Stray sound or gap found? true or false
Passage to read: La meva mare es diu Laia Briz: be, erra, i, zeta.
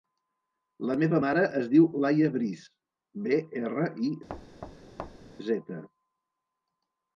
true